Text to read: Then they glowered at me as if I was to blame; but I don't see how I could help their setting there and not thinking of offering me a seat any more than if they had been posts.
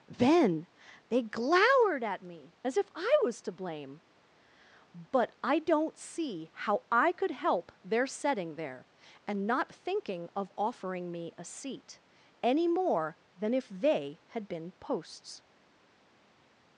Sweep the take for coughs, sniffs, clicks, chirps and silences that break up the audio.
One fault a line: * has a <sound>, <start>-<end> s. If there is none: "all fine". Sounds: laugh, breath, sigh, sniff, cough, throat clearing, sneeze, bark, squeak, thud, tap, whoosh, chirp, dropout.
all fine